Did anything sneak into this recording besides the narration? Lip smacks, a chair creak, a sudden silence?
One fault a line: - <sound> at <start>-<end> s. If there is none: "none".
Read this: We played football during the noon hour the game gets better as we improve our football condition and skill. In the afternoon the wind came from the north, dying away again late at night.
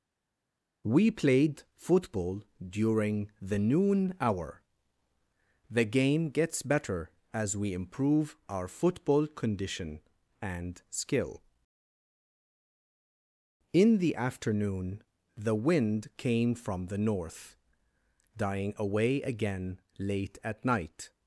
none